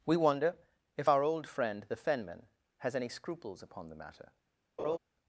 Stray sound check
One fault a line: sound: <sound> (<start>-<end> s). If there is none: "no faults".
sound: laugh (4.8-5.0 s)